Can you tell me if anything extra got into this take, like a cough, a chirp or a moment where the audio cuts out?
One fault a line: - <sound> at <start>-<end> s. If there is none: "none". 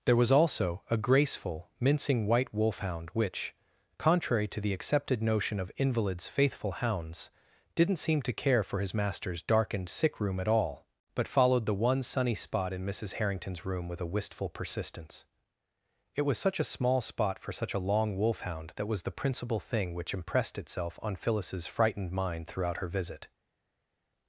none